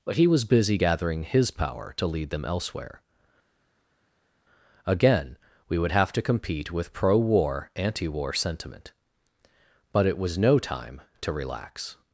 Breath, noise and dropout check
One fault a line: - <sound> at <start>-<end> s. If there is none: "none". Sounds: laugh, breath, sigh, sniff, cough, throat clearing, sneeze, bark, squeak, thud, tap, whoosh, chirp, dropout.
none